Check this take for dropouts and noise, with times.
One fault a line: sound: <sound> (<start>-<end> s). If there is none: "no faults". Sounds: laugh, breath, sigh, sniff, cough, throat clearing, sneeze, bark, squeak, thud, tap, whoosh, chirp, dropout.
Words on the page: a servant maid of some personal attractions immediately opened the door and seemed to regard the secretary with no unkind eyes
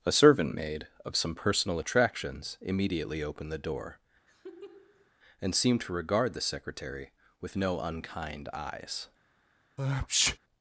sound: laugh (4.3-5.1 s)
sound: sneeze (9.8-10.4 s)